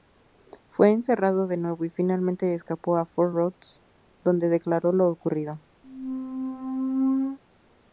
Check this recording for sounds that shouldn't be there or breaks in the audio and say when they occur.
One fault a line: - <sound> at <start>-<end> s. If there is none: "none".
- squeak at 5.8-7.4 s